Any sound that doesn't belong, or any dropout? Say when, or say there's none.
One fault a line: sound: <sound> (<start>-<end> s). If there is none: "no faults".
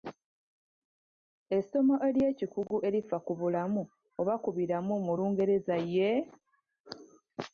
no faults